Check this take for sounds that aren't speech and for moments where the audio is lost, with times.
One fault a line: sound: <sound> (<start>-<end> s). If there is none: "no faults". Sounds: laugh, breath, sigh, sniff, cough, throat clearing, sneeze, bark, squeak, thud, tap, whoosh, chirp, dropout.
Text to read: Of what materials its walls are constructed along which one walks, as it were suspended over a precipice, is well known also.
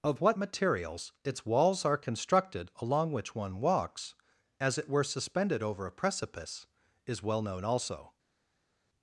no faults